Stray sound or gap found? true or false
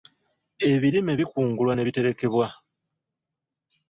false